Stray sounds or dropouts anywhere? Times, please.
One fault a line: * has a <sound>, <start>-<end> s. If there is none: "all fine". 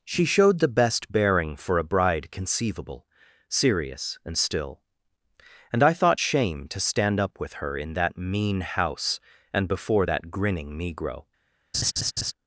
* has a laugh, 11.7-12.3 s